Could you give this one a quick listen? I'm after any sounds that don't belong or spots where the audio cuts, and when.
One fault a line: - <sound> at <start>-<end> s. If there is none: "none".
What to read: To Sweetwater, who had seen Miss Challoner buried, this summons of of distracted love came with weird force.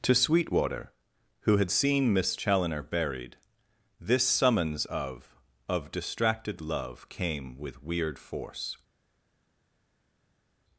none